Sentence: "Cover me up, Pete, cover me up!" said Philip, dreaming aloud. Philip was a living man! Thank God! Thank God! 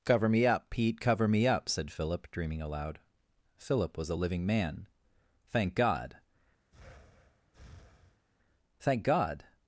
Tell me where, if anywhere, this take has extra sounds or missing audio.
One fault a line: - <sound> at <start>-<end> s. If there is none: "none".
- breath at 6.7-8.3 s